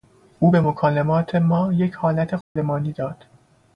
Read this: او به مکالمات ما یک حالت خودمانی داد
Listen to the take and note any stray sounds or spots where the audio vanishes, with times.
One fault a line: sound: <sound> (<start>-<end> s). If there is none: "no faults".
sound: dropout (2.4-2.6 s)